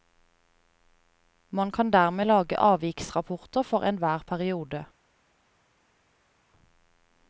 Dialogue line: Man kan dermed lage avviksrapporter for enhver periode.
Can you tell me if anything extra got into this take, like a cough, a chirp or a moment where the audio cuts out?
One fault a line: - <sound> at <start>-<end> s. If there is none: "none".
none